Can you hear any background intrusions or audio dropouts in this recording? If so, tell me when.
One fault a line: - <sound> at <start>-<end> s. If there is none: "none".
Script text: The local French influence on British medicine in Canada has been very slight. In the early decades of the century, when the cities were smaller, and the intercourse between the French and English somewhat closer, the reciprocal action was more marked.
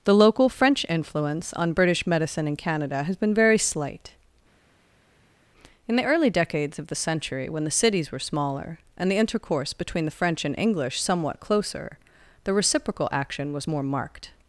none